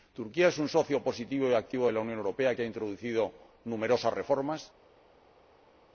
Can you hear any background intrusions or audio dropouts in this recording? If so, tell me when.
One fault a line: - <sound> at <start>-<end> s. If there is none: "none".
none